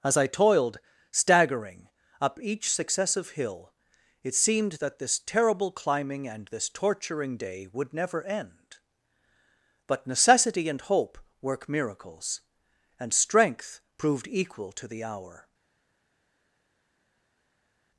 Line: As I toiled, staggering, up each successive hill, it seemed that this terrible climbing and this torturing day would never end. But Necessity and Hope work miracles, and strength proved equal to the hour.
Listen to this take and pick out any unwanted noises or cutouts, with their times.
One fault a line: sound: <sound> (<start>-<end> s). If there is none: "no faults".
no faults